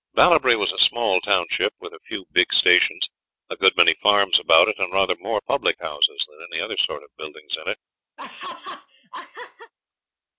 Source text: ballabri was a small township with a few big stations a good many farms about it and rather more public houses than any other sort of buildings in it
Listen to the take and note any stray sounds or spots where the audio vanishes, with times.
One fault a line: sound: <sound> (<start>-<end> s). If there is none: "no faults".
sound: laugh (8.2-9.7 s)